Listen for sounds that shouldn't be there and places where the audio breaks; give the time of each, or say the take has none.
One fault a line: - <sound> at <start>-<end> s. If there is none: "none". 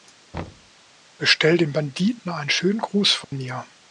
- thud at 0.3-0.7 s
- dropout at 3.2-3.3 s